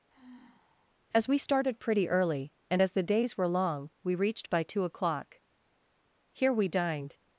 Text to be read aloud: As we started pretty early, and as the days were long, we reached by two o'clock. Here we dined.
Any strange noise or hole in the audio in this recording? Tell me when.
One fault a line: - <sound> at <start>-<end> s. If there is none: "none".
- sigh at 0.1-0.9 s